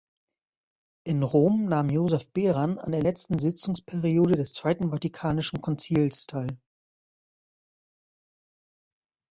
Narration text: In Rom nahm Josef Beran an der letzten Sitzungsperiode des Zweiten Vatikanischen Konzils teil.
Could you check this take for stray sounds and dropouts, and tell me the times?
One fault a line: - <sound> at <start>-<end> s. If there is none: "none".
none